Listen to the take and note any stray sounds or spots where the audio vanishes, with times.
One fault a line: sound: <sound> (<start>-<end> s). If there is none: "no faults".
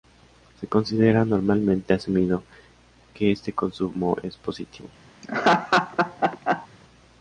sound: laugh (5.2-6.7 s)